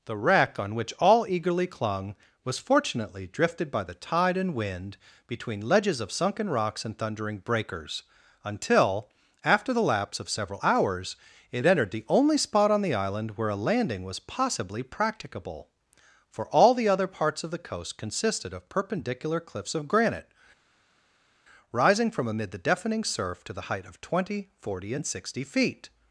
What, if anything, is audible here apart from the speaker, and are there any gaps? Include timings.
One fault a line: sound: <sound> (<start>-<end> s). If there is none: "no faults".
no faults